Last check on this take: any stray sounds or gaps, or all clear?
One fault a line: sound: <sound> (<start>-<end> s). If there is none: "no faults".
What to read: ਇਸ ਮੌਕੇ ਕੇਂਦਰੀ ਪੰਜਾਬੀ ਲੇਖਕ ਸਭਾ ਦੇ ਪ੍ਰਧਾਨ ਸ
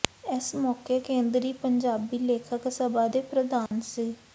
sound: dropout (3.7-3.7 s)